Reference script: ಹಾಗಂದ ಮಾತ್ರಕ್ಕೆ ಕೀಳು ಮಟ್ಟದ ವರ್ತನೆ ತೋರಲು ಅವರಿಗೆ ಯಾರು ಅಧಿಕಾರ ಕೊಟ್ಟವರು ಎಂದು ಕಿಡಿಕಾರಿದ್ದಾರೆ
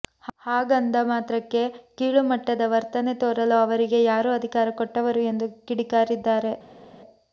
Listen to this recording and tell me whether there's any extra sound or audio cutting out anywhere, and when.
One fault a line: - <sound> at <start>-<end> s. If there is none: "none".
none